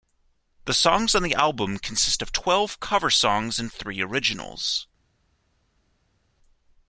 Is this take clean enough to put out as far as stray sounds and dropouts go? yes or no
yes